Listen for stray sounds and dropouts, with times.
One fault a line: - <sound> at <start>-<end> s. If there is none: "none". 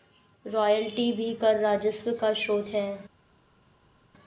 none